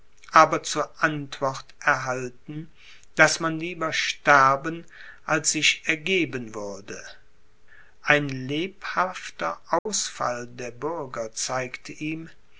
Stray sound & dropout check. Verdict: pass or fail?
fail